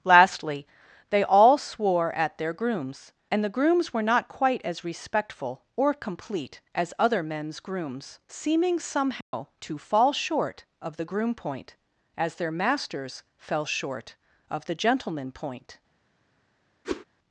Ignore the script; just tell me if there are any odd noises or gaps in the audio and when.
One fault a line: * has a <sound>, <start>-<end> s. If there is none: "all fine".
* has a dropout, 9.2-9.3 s
* has a whoosh, 16.8-17.0 s